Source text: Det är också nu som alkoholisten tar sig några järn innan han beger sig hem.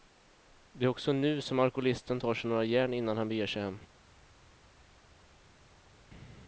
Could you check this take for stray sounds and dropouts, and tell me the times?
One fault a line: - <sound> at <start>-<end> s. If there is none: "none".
none